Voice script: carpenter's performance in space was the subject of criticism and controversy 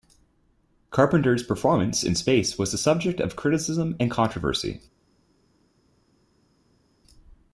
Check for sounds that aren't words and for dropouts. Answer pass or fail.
pass